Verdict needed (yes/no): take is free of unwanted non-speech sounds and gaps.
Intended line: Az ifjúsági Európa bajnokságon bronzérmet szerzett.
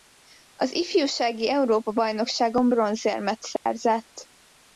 no